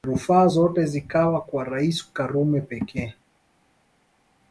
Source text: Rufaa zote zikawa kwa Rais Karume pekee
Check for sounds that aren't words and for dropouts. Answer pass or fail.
pass